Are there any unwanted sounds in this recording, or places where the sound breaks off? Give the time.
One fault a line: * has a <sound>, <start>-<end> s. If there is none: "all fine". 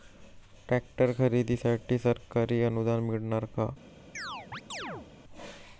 * has a chirp, 4.1-5.1 s